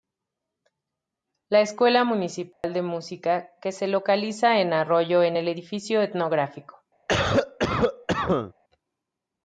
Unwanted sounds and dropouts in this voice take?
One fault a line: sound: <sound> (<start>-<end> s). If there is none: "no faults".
sound: dropout (2.5-2.6 s)
sound: cough (7.1-8.5 s)